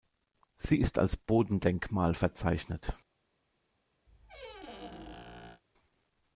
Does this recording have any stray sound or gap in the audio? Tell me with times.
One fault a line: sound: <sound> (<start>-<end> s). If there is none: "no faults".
sound: squeak (4.1-5.6 s)